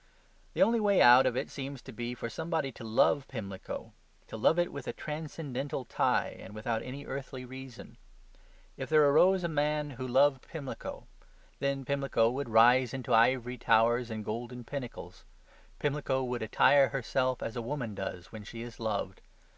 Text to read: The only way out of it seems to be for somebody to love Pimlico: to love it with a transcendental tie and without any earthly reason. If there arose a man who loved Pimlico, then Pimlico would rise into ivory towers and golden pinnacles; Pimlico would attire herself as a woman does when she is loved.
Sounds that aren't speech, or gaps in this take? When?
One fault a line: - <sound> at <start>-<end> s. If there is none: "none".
none